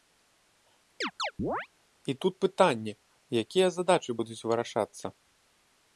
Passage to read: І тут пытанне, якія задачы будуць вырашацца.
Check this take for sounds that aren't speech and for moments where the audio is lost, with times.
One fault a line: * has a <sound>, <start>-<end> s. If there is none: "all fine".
* has a chirp, 1.0-1.7 s